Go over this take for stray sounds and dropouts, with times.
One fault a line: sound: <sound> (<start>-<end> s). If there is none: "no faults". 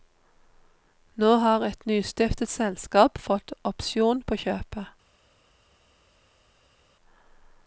no faults